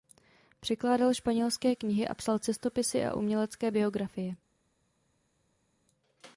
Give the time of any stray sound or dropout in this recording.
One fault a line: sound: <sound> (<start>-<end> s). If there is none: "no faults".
no faults